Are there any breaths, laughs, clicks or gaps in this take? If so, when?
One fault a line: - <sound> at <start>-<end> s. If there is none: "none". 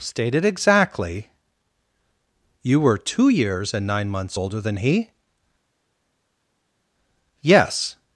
none